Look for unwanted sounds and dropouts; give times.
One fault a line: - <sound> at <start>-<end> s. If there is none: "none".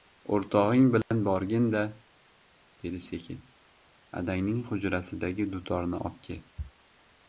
- dropout at 1.0-1.1 s